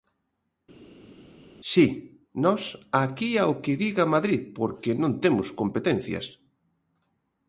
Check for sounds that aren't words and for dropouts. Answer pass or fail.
pass